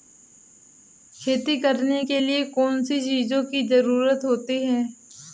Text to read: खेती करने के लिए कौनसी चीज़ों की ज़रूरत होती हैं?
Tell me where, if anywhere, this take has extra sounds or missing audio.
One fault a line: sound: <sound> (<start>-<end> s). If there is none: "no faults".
no faults